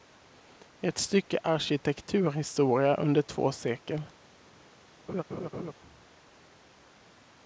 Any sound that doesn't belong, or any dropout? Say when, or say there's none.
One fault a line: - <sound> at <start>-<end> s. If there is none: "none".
- laugh at 5.1-5.7 s